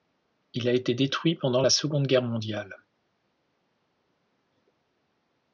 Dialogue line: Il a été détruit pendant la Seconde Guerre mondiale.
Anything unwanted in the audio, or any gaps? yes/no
no